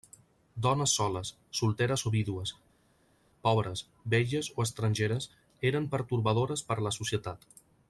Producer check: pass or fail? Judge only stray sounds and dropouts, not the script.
pass